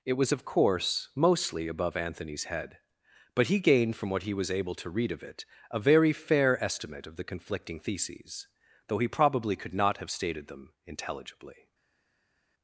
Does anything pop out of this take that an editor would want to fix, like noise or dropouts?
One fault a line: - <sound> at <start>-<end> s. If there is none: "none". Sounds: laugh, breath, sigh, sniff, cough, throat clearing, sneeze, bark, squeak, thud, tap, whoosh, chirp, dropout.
none